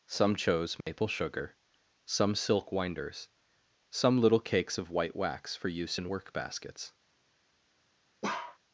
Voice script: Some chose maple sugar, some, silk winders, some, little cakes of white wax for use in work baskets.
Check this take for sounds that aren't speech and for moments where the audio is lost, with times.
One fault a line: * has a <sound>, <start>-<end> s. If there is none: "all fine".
* has a dropout, 0.8-0.9 s
* has a bark, 8.2-8.6 s